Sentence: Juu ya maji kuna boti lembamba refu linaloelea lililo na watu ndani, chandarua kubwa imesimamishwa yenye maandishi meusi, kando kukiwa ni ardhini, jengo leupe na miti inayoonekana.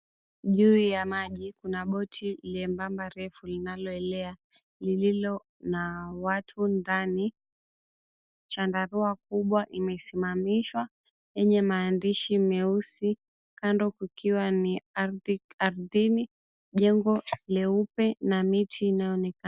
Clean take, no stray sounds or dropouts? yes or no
yes